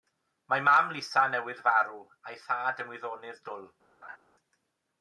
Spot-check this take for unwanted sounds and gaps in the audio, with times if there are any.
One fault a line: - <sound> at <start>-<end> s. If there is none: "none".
- laugh at 4.0-4.2 s